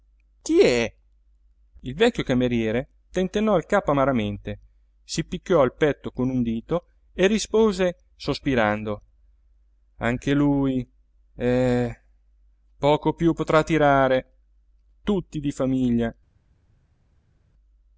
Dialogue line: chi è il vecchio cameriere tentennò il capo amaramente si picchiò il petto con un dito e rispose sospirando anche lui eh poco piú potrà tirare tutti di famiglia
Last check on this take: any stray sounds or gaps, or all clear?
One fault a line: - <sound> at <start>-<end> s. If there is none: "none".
none